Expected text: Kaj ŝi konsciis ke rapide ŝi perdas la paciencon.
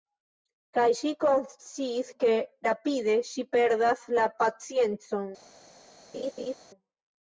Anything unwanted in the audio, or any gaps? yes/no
yes